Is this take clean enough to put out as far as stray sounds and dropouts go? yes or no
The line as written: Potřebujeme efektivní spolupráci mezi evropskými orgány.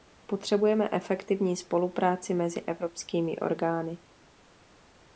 yes